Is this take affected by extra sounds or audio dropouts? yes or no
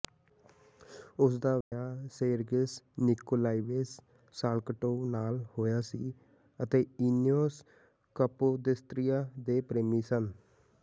yes